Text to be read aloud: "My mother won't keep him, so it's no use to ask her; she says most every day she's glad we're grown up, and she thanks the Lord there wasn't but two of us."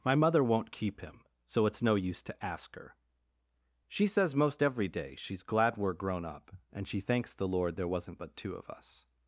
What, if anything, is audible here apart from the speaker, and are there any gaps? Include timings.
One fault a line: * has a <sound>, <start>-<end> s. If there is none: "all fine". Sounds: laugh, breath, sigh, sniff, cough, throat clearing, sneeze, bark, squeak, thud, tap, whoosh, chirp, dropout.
all fine